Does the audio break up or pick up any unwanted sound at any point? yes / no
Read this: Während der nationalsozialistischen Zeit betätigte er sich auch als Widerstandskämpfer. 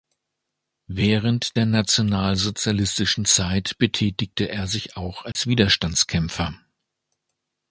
yes